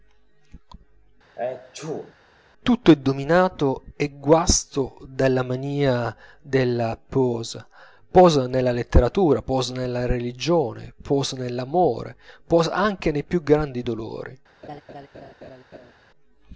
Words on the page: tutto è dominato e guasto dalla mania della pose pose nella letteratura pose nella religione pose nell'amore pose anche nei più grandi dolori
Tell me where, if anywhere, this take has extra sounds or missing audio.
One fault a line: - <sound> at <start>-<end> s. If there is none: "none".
- sneeze at 1.4-2.1 s
- laugh at 14.6-15.9 s